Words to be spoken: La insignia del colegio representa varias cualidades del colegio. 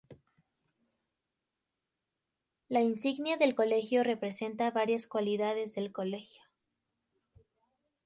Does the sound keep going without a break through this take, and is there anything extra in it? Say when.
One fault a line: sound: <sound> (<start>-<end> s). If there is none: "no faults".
no faults